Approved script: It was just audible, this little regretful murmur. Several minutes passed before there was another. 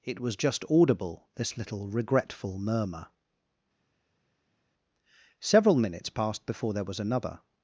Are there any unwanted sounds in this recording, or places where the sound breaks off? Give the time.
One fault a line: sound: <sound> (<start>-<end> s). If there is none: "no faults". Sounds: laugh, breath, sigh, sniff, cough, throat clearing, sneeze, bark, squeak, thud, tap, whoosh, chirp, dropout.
no faults